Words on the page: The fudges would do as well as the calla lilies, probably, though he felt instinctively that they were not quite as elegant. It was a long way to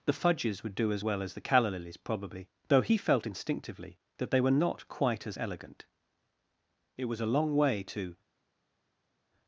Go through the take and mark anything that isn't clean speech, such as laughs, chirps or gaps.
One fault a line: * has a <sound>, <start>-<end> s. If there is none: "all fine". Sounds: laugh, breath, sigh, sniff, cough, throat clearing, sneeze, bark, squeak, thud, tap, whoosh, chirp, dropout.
all fine